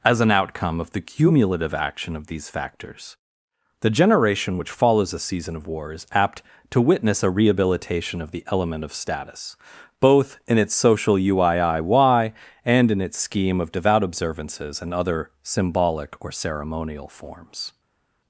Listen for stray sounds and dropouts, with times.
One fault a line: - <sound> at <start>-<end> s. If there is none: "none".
none